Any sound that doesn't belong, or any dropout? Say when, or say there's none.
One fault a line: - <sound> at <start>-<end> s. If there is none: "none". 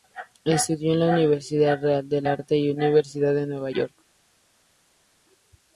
none